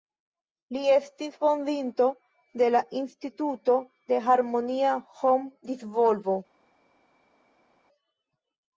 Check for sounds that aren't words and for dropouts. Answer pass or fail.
pass